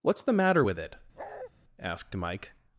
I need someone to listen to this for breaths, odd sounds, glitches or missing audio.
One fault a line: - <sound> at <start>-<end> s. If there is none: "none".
- bark at 1.2-1.5 s